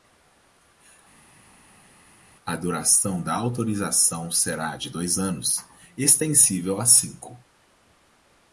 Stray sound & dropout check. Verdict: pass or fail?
pass